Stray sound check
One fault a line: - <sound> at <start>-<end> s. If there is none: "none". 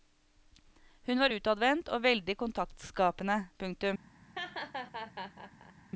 - laugh at 4.3-5.7 s